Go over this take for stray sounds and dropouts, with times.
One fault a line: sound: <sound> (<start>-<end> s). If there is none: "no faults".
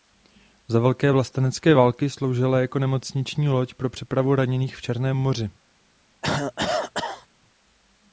sound: cough (6.2-7.3 s)